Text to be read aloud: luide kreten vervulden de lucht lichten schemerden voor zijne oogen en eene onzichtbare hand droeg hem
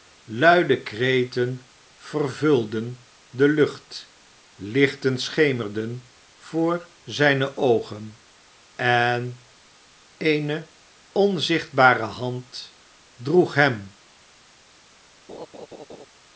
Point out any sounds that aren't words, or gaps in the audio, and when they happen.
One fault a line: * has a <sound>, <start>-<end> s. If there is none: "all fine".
* has a laugh, 15.3-16.1 s